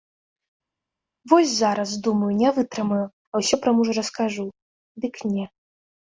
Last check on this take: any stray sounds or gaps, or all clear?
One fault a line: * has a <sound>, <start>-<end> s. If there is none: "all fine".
all fine